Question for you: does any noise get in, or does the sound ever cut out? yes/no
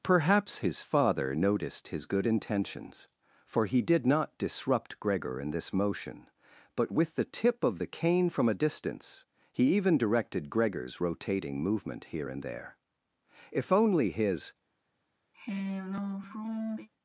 yes